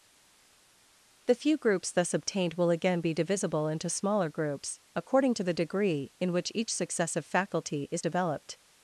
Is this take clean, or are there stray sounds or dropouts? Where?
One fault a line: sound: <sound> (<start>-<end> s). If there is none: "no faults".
no faults